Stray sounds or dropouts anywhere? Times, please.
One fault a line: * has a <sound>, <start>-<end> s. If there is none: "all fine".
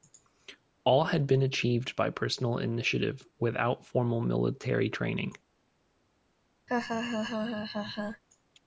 * has a laugh, 6.7-8.2 s